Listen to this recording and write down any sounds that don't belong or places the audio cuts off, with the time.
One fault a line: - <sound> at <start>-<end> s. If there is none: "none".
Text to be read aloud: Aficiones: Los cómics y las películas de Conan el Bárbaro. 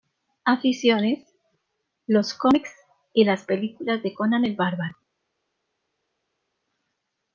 none